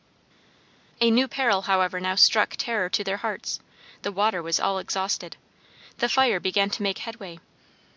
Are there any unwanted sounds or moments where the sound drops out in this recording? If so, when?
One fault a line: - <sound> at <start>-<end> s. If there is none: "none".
none